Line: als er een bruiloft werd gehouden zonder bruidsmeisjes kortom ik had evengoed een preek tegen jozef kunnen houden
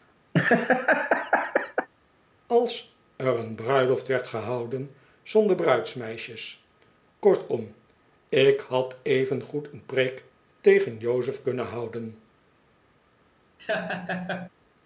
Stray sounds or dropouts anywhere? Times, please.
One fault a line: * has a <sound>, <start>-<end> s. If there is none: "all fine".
* has a laugh, 0.3-1.9 s
* has a laugh, 13.6-14.5 s